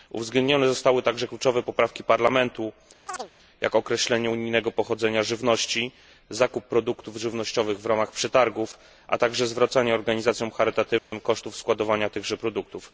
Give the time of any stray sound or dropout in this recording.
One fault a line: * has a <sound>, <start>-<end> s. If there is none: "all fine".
* has a chirp, 3.1-3.3 s
* has a dropout, 11.0-11.1 s